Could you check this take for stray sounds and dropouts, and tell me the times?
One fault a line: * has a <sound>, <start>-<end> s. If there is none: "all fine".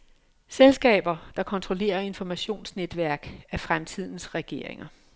all fine